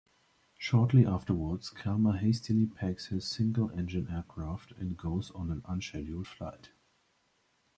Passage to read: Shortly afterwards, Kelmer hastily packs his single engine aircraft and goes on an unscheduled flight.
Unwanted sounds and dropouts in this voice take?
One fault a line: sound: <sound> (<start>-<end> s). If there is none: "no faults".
no faults